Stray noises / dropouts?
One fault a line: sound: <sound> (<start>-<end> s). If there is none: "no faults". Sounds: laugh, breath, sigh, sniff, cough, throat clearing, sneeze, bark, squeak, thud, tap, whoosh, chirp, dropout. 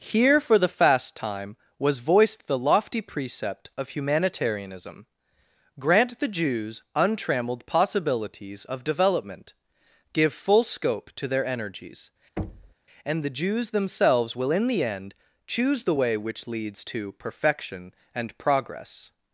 sound: thud (12.4-12.7 s)